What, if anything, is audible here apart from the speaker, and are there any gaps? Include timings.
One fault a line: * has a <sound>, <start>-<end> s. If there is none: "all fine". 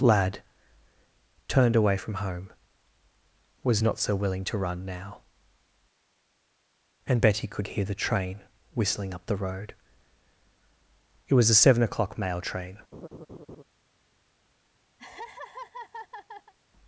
* has a laugh, 12.9-13.6 s
* has a laugh, 15.0-16.5 s